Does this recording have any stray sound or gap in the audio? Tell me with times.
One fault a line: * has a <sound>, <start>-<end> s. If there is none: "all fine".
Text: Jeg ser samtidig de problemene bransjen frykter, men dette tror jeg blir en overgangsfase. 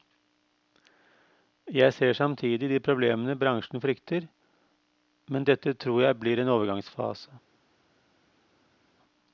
all fine